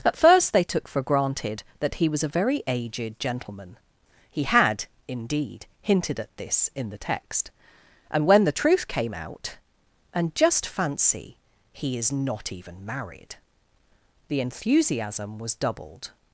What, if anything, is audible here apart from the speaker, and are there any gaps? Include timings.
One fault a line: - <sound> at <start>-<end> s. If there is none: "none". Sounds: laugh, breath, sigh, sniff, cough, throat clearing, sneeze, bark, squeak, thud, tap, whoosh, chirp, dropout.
none